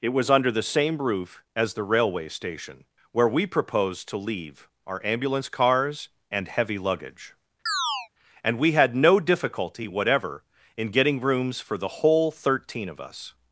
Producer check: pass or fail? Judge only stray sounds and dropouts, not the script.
fail